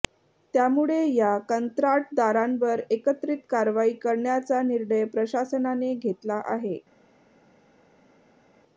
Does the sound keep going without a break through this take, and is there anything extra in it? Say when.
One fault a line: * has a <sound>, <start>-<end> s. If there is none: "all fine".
all fine